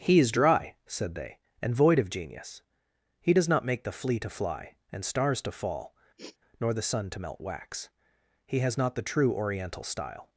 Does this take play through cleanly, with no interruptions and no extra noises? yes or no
no